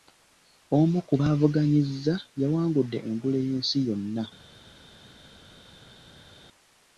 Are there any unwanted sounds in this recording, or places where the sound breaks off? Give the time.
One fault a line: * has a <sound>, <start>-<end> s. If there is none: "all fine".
all fine